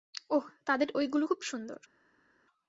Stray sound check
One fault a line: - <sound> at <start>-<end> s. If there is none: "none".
none